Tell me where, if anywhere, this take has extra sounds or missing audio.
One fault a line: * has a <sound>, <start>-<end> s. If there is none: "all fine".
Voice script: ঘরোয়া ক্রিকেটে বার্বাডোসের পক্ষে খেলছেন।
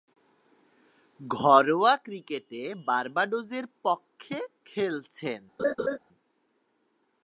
* has a laugh, 5.6-6.0 s